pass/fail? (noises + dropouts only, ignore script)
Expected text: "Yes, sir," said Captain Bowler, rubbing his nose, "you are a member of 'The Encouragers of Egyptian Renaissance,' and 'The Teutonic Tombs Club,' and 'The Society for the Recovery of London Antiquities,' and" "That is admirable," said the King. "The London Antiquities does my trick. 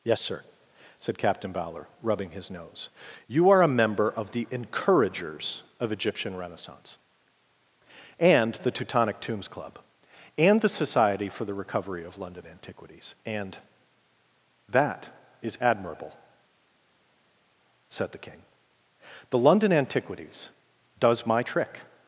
pass